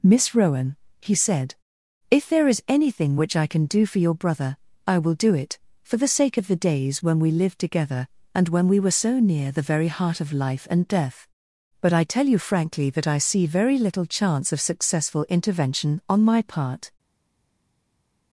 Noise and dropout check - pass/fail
pass